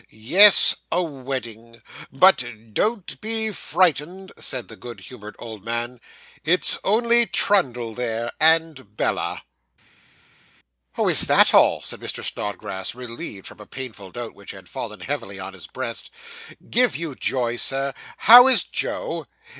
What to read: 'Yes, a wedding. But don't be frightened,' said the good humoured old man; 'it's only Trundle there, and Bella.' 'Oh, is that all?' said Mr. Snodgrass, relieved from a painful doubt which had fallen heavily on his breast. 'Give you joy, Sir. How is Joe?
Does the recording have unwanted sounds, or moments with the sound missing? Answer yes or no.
no